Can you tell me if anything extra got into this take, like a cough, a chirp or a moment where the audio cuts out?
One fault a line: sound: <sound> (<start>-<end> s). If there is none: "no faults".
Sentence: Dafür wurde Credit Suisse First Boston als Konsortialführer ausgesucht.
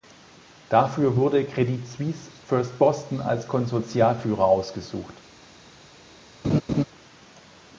sound: laugh (6.4-6.8 s)